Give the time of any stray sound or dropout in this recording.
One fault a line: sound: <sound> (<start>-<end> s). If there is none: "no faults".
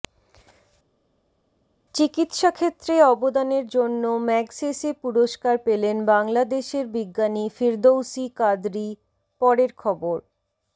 no faults